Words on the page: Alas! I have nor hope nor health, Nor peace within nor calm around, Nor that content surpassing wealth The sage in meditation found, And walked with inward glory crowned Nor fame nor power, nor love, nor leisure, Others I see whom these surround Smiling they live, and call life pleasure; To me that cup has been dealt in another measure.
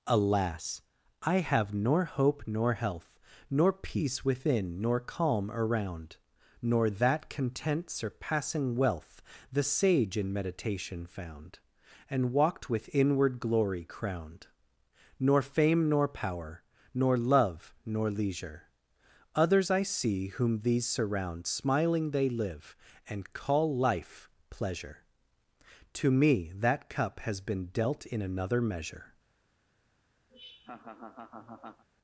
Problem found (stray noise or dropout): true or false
true